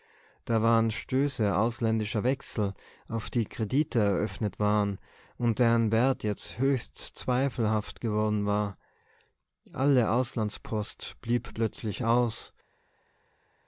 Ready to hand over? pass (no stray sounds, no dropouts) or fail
pass